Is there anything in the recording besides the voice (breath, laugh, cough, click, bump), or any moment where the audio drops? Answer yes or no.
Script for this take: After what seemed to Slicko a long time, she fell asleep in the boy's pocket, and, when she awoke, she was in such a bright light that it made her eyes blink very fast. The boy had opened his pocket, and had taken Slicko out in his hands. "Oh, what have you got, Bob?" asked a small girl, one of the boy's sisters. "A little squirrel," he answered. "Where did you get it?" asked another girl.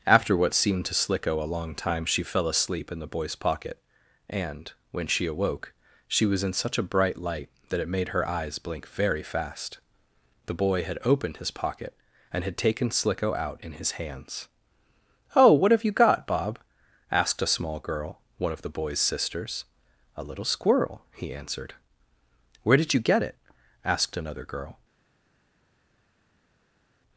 no